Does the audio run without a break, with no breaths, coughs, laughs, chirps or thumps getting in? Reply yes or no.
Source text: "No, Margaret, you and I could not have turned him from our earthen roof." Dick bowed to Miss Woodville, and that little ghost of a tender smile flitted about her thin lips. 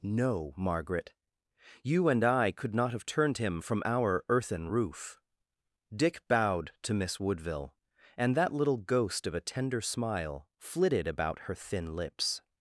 yes